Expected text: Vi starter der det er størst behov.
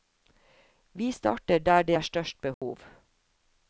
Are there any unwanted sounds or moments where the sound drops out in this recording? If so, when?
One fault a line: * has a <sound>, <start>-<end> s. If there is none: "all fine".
* has a dropout, 2.5-2.6 s